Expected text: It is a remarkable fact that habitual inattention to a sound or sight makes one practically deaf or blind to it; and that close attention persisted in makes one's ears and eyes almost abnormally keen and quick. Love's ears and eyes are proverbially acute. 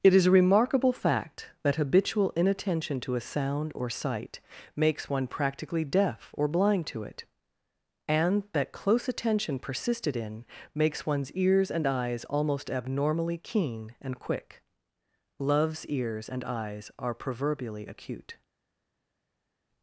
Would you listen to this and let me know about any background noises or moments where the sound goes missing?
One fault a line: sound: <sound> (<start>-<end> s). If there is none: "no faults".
no faults